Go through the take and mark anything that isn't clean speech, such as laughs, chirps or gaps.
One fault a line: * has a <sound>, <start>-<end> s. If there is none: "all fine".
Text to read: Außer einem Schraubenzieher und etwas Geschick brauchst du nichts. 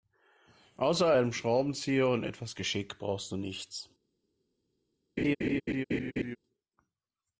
* has a laugh, 5.2-6.4 s